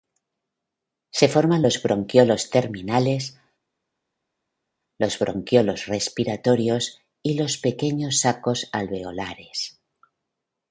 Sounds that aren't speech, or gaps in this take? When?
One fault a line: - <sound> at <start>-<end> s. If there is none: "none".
none